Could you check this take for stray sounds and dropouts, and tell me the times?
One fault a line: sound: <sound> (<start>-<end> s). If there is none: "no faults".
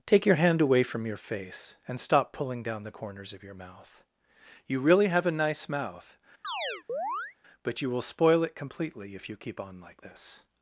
sound: chirp (6.4-7.4 s)